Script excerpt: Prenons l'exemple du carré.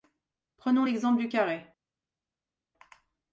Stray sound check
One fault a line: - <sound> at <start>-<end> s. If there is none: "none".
none